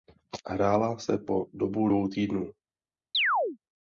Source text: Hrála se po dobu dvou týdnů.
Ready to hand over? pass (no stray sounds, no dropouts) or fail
fail